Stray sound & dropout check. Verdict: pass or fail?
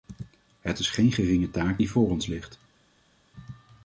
pass